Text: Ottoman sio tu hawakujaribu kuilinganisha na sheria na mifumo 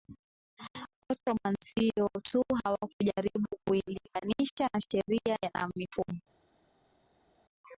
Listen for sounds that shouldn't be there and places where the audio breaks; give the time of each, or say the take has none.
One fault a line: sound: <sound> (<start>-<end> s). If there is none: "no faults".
no faults